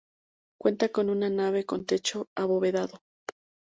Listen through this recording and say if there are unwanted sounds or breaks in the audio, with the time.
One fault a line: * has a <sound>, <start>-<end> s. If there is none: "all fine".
all fine